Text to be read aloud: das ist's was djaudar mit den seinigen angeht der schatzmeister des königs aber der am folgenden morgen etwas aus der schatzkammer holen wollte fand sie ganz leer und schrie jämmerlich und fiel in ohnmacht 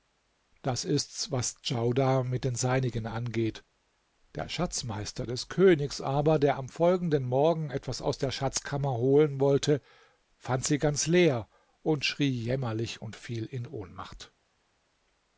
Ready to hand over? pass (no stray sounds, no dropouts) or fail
pass